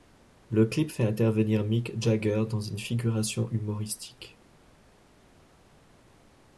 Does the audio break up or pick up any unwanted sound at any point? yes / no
no